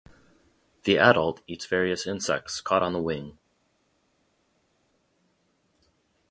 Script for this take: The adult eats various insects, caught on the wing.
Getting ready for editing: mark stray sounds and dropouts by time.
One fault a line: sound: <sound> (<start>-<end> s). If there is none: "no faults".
no faults